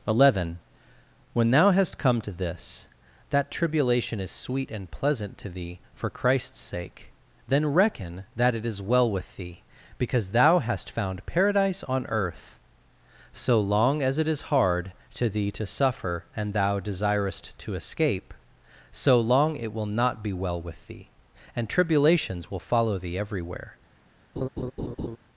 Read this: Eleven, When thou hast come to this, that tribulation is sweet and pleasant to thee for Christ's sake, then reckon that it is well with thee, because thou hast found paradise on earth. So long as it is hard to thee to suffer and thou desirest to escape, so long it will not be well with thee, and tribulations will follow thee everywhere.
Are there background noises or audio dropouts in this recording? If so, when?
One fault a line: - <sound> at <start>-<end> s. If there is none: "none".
- laugh at 24.4-25.2 s